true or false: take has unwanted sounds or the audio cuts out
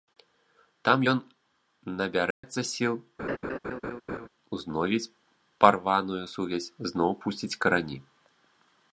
true